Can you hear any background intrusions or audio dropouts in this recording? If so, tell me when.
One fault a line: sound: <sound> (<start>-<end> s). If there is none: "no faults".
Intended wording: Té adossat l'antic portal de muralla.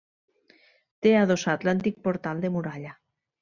no faults